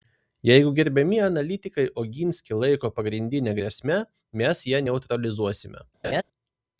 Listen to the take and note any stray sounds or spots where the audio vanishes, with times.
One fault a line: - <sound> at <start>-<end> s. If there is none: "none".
- laugh at 6.0-6.2 s